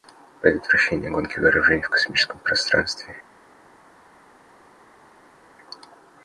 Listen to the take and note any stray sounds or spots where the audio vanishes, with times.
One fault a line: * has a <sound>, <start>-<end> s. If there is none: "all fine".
all fine